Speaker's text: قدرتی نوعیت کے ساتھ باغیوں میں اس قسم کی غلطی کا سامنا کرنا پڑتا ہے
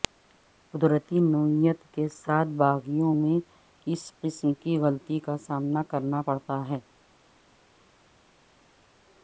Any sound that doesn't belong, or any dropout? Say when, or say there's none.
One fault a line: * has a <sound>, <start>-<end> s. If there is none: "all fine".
all fine